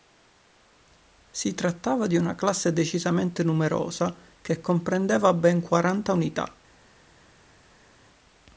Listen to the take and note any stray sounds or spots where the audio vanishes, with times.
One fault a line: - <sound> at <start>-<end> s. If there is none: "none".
none